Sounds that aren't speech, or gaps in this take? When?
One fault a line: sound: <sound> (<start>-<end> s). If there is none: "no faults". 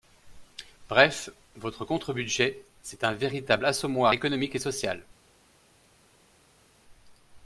no faults